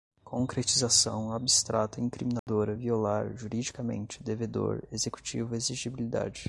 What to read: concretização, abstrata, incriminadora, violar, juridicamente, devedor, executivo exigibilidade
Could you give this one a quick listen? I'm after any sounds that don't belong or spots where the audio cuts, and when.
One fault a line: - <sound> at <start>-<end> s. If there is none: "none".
- dropout at 2.4-2.5 s